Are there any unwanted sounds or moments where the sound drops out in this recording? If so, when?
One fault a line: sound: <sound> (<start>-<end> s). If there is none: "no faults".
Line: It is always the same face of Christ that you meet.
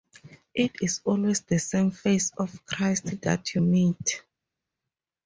no faults